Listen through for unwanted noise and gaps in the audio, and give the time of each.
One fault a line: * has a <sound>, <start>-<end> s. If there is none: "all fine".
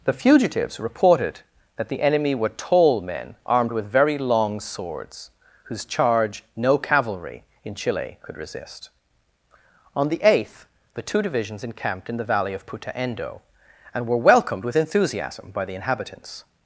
all fine